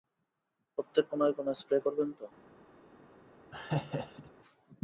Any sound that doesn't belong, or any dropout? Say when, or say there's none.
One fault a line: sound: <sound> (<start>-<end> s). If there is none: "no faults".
sound: laugh (3.5-4.3 s)